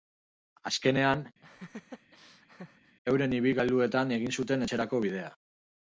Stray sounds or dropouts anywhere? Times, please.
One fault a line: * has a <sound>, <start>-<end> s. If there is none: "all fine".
* has a laugh, 1.4-3.0 s